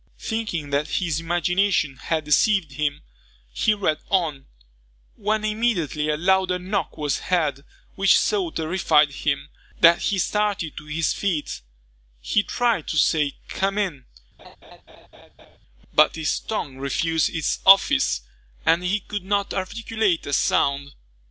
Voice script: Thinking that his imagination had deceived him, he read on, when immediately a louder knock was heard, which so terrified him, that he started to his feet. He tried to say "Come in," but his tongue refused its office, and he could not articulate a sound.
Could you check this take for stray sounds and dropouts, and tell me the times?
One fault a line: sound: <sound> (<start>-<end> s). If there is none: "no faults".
sound: laugh (14.4-15.6 s)